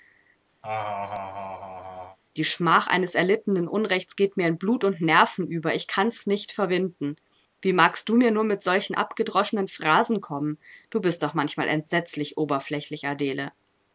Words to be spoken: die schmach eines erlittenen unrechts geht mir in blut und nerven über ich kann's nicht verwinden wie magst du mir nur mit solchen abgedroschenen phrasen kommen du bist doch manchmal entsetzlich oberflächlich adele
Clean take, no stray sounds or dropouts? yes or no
no